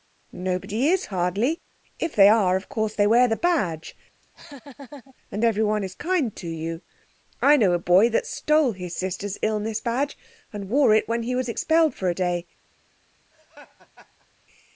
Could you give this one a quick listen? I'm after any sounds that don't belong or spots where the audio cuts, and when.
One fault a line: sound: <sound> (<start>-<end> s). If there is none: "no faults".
sound: laugh (4.2-5.1 s)
sound: laugh (13.3-14.3 s)